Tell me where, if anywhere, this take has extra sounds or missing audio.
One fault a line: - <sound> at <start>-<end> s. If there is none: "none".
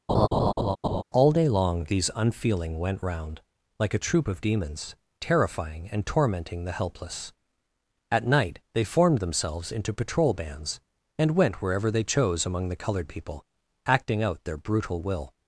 - laugh at 0.1-1.0 s